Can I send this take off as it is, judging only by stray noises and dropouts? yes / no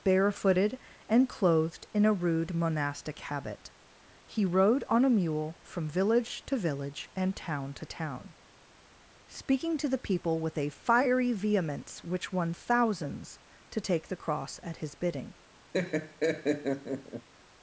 no